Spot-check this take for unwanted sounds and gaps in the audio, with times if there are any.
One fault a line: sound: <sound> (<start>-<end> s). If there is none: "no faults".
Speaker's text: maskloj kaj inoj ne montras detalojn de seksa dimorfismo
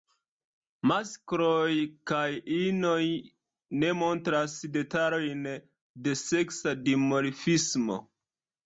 no faults